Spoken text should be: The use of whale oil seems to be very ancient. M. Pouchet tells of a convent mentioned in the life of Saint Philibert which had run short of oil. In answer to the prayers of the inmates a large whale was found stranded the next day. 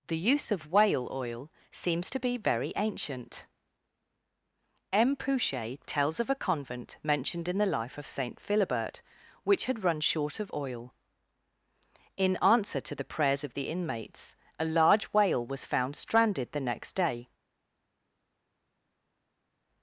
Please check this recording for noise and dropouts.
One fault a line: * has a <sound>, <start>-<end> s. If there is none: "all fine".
all fine